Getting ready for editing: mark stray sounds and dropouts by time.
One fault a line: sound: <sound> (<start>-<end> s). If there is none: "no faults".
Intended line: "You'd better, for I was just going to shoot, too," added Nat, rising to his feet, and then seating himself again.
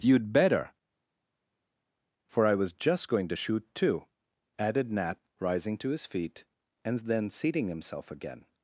no faults